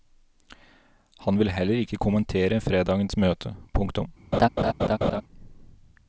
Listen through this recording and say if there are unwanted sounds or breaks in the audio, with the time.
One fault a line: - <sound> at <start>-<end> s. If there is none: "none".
- laugh at 4.3-5.2 s